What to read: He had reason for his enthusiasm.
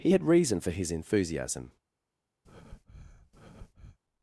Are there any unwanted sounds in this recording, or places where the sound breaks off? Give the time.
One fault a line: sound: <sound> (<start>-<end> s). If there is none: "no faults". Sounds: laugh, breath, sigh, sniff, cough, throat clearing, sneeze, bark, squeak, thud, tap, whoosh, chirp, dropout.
sound: breath (2.4-4.0 s)